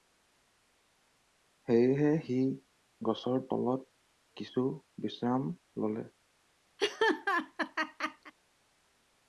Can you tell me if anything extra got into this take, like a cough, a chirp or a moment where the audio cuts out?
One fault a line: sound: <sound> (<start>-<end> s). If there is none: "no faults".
sound: laugh (6.8-8.3 s)